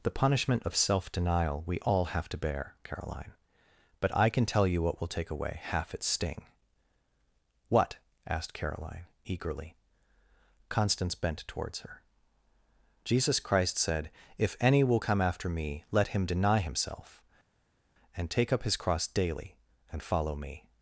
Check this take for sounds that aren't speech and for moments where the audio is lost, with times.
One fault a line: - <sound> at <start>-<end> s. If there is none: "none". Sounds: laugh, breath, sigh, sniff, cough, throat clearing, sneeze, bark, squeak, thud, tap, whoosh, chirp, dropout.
none